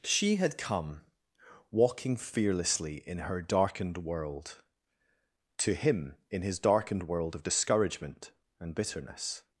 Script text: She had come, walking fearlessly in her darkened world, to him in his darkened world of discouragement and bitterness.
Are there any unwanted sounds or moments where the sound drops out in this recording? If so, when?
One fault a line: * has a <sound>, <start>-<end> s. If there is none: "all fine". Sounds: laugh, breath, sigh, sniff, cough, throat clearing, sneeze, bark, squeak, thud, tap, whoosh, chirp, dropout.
all fine